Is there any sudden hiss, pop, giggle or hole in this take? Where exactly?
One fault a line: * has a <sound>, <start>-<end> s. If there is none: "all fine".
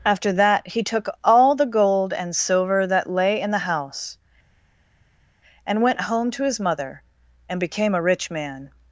all fine